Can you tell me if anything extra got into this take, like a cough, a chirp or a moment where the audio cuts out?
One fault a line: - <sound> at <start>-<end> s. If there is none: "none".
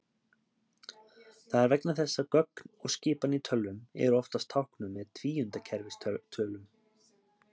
none